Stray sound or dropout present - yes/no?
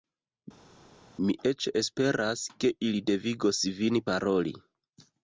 no